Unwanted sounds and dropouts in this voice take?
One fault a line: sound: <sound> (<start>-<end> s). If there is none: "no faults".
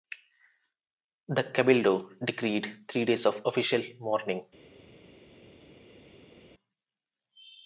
no faults